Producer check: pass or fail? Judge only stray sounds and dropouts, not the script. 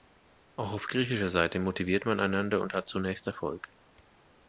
pass